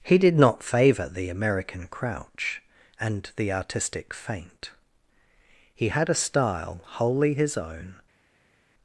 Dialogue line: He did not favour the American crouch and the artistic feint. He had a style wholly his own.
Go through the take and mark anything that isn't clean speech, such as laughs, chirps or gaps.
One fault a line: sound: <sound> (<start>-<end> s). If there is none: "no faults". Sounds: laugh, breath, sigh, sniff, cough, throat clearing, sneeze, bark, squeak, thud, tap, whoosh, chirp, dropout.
no faults